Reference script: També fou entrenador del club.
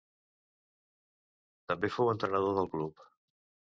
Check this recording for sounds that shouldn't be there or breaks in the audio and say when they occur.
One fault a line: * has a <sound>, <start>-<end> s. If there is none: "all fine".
all fine